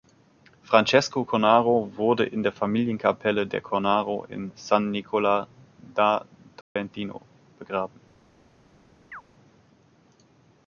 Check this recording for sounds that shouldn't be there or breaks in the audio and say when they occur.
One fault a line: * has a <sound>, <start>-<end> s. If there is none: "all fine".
* has a dropout, 6.6-6.8 s
* has a chirp, 9.1-9.2 s